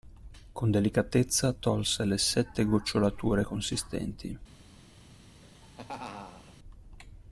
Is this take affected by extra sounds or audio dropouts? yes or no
yes